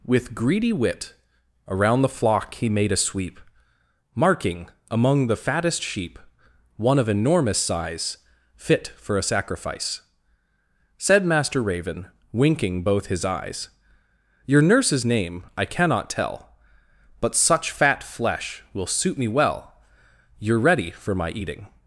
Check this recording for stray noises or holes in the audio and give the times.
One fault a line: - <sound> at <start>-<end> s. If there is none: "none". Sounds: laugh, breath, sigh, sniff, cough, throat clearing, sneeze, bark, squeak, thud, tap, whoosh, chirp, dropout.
none